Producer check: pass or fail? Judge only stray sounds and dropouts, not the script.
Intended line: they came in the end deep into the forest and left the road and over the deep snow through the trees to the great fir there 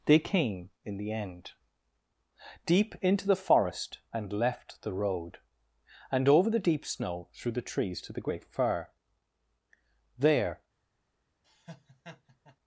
fail